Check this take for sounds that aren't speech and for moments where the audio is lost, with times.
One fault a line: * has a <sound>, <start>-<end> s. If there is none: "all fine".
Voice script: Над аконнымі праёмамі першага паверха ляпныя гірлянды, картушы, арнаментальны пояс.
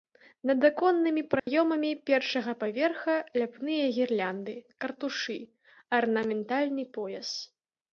* has a dropout, 1.4-1.5 s